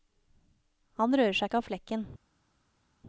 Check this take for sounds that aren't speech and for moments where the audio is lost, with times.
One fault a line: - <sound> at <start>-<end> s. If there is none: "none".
none